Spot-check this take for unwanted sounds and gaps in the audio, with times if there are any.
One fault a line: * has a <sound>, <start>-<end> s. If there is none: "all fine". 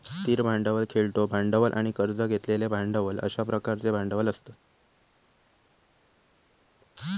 all fine